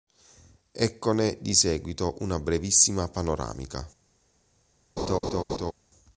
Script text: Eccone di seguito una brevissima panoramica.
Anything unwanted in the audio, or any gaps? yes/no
yes